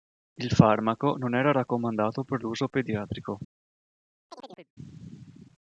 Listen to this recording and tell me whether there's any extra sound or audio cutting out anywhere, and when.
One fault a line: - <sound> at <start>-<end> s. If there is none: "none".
- chirp at 4.3-4.7 s